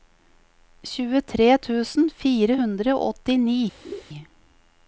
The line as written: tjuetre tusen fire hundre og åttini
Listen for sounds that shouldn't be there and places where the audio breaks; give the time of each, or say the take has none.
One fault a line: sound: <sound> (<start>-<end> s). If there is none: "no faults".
sound: laugh (3.8-4.0 s)